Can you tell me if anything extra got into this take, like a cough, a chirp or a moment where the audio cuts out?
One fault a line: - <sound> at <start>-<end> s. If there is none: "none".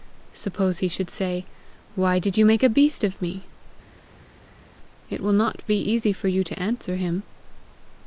none